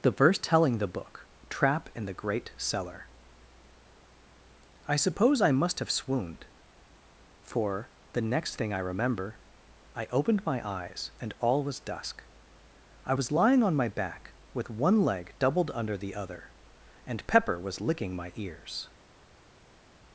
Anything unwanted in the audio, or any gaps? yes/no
no